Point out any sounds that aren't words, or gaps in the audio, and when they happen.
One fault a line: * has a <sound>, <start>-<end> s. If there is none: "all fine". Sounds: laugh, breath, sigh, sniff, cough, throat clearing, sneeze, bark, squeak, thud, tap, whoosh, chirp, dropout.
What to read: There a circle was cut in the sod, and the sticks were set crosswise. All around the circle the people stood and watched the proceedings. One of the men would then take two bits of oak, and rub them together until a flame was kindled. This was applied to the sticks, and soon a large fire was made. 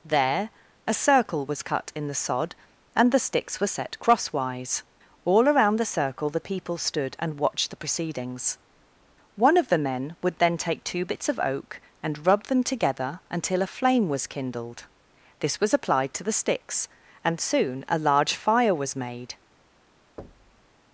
* has a thud, 20.2-20.7 s